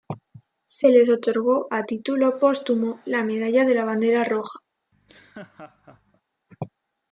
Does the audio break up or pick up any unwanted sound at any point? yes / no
yes